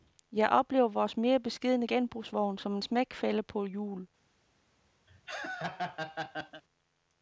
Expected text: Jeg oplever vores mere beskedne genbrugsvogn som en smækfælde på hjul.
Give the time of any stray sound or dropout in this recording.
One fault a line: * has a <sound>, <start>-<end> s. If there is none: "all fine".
* has a laugh, 5.1-6.6 s